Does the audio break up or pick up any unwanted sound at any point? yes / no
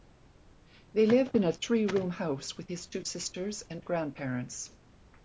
no